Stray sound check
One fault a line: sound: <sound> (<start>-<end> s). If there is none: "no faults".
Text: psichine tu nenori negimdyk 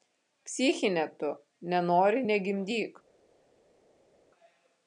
no faults